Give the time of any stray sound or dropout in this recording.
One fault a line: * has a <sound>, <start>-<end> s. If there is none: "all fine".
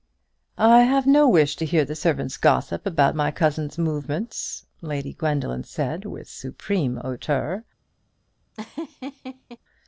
* has a laugh, 8.5-9.6 s